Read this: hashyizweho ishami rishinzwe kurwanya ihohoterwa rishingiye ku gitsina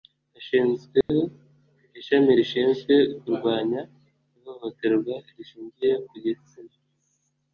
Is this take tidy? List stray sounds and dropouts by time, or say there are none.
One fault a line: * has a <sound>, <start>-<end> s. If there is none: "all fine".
* has a dropout, 1.0-1.1 s